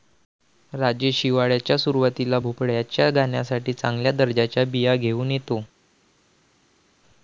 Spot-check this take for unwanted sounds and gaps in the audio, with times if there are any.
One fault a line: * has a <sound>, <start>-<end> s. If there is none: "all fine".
all fine